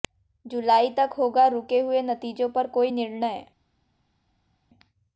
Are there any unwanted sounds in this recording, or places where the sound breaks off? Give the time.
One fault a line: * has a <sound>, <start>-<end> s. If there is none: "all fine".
all fine